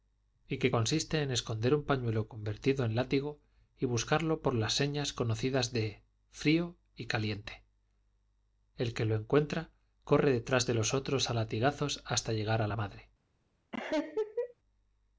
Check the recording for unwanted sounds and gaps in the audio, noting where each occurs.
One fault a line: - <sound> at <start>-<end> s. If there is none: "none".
- laugh at 13.7-14.5 s